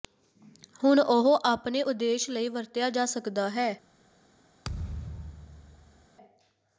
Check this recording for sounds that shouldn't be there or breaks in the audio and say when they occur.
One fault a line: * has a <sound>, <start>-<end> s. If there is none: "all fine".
* has a thud, 4.6-6.1 s